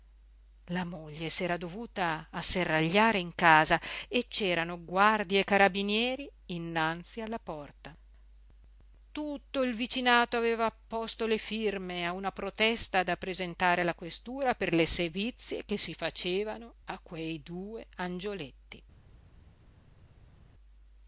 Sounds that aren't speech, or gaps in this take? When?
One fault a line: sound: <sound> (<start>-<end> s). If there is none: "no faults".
no faults